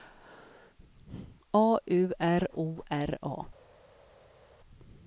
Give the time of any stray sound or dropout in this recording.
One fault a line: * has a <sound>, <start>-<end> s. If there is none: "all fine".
all fine